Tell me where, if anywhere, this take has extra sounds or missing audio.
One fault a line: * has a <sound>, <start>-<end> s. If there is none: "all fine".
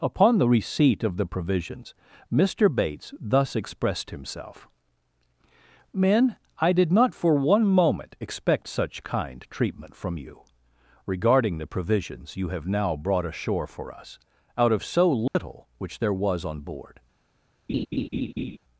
* has a dropout, 15.3-15.4 s
* has a laugh, 17.7-18.6 s